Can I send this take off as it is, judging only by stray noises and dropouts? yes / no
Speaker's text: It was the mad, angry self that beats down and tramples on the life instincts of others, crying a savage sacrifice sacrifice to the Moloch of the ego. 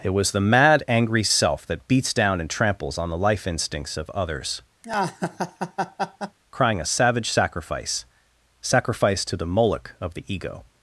no